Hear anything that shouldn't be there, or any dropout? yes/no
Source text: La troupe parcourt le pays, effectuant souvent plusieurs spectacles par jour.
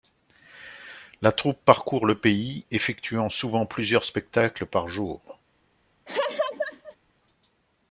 yes